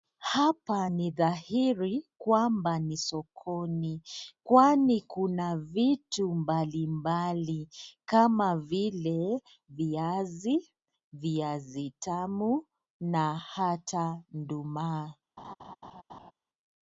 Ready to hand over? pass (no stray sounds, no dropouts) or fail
fail